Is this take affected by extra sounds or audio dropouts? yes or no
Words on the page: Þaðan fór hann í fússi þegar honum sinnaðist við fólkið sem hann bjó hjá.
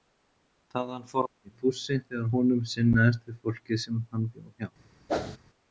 yes